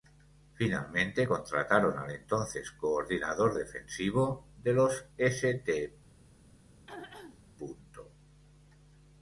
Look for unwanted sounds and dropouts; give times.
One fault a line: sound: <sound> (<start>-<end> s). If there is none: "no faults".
sound: throat clearing (6.7-7.4 s)